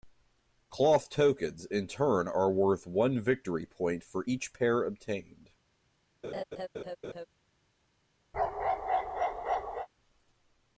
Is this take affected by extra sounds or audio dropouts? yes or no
yes